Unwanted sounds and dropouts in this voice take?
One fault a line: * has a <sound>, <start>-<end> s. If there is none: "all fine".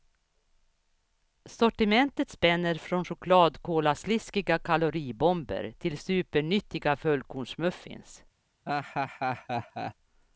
* has a laugh, 8.7-9.9 s